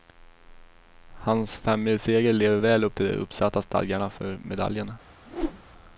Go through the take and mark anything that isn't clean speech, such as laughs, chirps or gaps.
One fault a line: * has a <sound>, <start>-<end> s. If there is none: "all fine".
* has a whoosh, 5.3-5.6 s